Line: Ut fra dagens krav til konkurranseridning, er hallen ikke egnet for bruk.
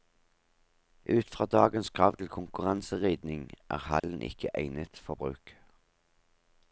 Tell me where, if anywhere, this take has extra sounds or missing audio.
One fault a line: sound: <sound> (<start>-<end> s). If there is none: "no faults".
sound: dropout (4.0-4.0 s)